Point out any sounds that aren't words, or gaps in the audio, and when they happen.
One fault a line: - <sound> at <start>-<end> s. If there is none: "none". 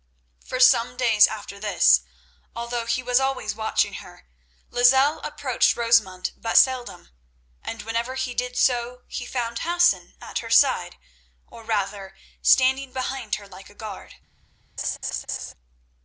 - laugh at 14.8-15.5 s